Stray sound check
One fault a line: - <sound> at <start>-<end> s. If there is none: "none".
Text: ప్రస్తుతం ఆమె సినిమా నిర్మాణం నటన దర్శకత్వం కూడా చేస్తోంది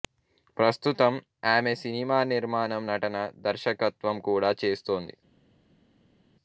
none